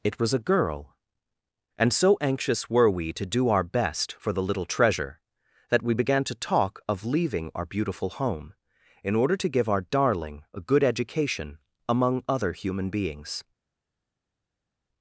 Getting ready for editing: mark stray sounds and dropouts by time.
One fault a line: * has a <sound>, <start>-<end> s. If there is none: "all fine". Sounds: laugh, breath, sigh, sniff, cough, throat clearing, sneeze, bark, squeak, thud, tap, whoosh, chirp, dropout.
all fine